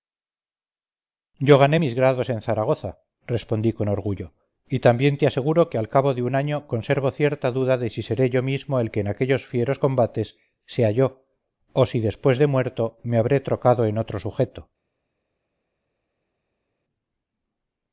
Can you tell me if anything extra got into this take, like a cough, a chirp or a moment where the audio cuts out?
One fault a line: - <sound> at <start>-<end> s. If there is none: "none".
none